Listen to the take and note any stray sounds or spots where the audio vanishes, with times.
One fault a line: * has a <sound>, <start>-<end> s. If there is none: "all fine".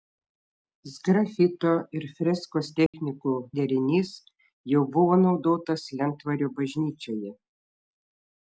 * has a dropout, 2.9-2.9 s